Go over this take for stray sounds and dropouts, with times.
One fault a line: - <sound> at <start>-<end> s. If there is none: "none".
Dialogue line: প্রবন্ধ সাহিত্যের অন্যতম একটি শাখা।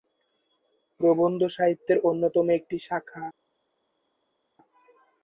none